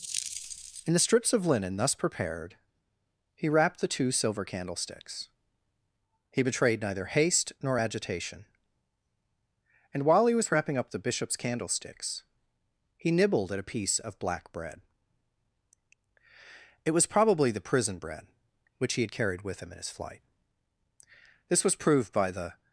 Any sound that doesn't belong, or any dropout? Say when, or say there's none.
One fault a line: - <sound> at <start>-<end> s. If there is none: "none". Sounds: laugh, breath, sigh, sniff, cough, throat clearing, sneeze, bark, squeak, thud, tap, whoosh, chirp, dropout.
none